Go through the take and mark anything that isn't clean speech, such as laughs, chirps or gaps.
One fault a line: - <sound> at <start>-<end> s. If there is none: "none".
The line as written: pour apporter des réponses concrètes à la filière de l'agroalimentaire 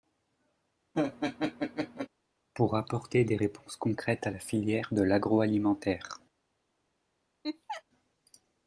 - laugh at 0.9-2.1 s
- laugh at 7.4-7.8 s